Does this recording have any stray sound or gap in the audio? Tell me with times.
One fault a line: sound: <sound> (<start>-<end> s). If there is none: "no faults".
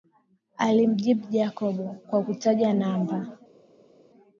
no faults